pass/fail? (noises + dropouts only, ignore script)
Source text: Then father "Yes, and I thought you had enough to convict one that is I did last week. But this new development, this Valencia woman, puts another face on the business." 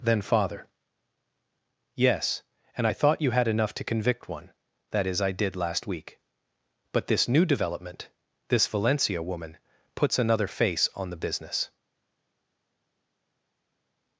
pass